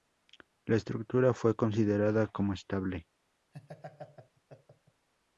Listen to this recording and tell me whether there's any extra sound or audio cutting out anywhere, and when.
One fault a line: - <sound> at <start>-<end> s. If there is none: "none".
- laugh at 3.5-5.1 s